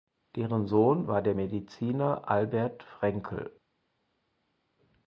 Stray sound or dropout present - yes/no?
no